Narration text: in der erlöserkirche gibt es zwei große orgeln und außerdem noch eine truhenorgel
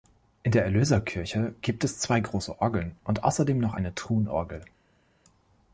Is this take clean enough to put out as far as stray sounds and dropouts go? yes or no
yes